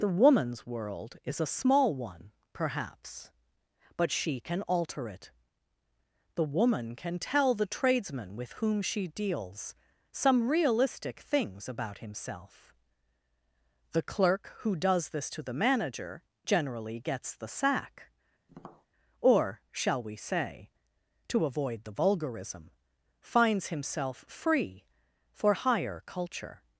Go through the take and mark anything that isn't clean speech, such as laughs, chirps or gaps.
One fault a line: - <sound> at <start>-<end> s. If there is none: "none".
- tap at 18.5-18.9 s